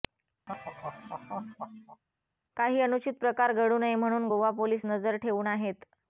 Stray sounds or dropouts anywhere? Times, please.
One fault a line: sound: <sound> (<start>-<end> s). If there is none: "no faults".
sound: laugh (0.5-2.0 s)